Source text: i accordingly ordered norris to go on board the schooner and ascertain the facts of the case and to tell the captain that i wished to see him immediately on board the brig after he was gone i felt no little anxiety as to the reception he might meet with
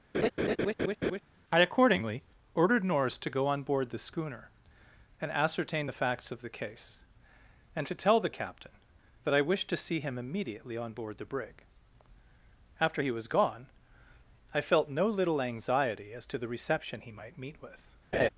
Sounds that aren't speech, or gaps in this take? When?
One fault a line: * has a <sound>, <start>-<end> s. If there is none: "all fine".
* has a laugh, 0.1-1.2 s
* has a laugh, 18.1-18.3 s